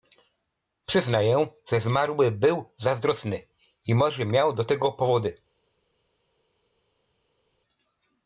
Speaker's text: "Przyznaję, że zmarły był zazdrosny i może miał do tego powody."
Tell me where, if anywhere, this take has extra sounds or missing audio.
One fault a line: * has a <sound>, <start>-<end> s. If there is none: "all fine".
all fine